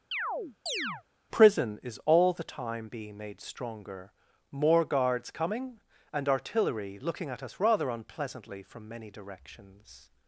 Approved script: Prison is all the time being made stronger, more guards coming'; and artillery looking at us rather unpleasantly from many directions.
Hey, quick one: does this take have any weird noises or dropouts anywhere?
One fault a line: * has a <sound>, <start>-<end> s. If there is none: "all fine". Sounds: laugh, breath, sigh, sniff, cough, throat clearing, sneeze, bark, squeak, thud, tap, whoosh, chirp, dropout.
* has a chirp, 0.1-1.0 s